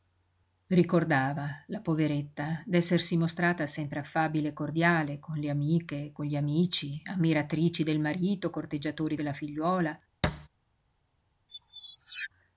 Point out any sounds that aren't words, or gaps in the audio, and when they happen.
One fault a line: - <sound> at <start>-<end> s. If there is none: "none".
- thud at 10.2-10.5 s
- squeak at 11.5-12.3 s